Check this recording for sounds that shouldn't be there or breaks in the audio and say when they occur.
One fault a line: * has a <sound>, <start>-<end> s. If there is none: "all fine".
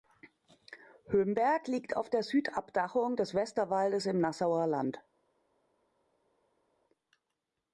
all fine